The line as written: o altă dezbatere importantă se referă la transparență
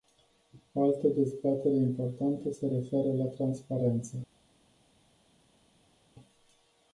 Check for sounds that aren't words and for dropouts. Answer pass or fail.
pass